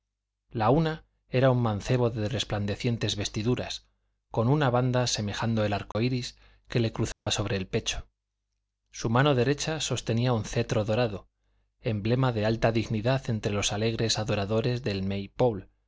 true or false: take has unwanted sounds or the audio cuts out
true